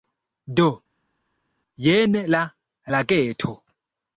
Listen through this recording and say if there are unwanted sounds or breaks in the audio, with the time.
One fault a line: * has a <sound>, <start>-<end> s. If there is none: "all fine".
all fine